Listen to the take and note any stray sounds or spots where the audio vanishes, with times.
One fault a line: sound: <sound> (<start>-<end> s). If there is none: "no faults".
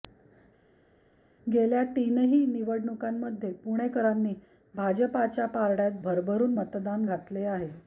no faults